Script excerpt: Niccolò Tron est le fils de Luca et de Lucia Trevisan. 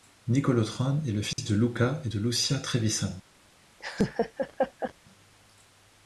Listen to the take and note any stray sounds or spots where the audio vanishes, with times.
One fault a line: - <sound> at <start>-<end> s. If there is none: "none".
- dropout at 1.3-1.4 s
- laugh at 3.8-4.9 s